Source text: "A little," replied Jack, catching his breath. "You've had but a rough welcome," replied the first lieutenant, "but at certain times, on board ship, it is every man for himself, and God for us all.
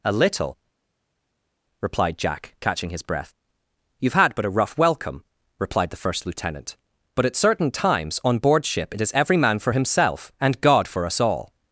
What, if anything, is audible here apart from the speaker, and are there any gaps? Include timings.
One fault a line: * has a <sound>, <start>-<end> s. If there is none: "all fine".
all fine